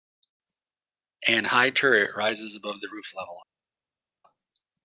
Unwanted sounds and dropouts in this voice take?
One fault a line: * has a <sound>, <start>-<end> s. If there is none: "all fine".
all fine